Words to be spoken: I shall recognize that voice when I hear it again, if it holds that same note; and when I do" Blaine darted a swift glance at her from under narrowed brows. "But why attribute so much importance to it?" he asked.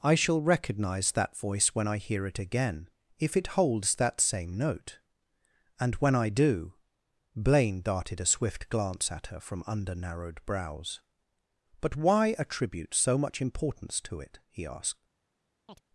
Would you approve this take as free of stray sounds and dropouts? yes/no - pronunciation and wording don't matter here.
no